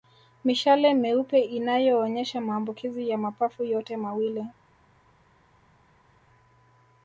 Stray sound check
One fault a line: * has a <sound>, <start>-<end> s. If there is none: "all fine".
all fine